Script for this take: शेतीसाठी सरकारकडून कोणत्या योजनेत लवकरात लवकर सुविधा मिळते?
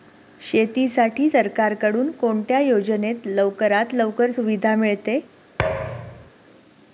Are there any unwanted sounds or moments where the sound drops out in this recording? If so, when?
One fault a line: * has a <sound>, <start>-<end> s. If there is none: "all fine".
* has a thud, 5.6-6.3 s